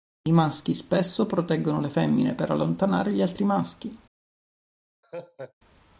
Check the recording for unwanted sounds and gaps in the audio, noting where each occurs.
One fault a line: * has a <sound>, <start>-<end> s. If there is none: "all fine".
* has a laugh, 5.0-5.5 s